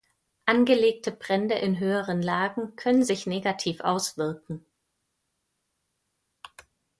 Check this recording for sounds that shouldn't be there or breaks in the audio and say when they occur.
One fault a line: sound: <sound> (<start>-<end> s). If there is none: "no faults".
no faults